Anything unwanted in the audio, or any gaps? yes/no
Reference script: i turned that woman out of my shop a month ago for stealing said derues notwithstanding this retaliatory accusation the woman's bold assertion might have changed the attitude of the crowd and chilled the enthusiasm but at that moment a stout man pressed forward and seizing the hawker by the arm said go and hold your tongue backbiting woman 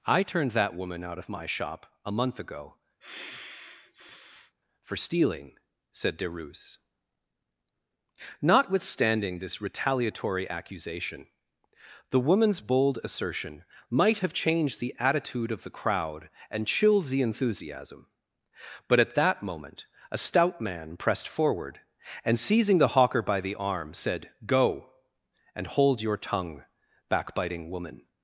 yes